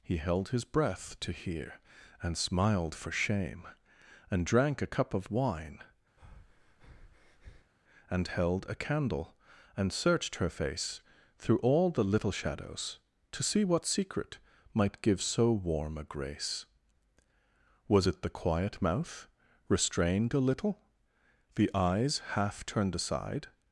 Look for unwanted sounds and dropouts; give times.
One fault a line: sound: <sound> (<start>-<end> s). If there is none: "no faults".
sound: breath (6.2-7.7 s)